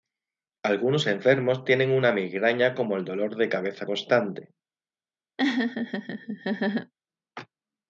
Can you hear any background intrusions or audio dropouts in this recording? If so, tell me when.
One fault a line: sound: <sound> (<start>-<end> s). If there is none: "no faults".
sound: laugh (5.4-6.9 s)